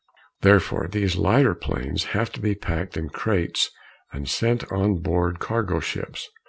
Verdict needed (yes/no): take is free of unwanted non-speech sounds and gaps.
yes